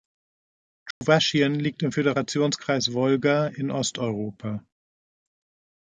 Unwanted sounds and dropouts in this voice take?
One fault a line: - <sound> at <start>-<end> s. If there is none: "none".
- dropout at 0.9-1.0 s